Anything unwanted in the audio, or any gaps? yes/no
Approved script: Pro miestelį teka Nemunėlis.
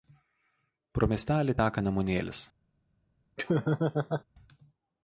yes